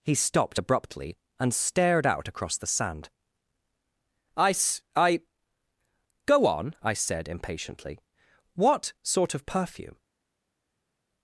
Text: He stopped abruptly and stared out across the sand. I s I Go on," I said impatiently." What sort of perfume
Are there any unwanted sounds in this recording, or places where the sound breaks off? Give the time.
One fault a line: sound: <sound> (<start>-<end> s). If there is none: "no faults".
no faults